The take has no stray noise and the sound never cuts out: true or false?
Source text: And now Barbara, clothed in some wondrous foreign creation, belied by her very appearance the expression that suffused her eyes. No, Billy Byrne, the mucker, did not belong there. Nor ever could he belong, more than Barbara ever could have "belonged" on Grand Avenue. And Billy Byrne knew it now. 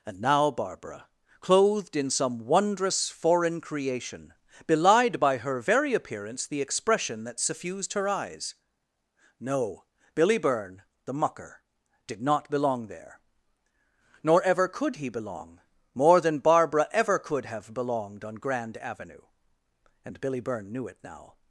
true